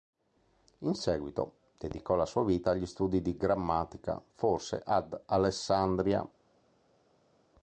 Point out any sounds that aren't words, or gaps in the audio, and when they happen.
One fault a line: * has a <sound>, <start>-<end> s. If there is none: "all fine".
all fine